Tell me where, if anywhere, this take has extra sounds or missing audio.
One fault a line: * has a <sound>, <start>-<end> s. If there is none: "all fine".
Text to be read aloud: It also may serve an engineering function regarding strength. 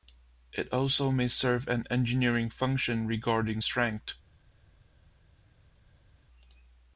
all fine